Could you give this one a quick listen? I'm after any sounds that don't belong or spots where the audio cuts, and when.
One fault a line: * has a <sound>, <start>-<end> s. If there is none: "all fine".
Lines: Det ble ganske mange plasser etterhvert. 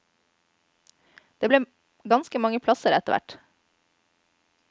all fine